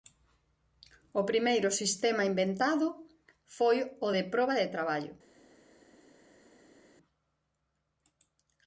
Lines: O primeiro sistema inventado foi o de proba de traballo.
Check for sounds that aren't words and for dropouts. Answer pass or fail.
pass